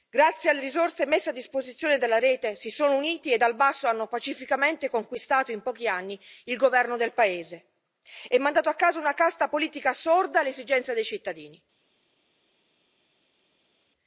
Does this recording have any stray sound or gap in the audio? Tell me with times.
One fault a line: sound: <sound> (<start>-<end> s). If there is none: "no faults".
no faults